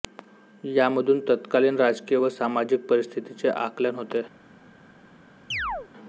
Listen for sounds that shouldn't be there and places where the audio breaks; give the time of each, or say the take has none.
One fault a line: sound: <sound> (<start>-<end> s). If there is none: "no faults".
sound: chirp (5.5-5.9 s)